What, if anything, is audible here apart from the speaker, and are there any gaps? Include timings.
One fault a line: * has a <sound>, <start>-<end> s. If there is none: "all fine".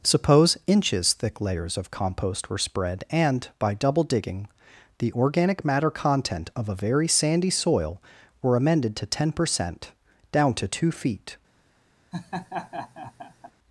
* has a laugh, 12.1-13.5 s